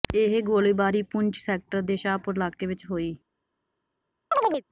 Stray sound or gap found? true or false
true